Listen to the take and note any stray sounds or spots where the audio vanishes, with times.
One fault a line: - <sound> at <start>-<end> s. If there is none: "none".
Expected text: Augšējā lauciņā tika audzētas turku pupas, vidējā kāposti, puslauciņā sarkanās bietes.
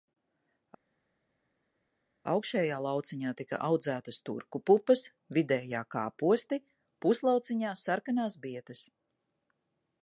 none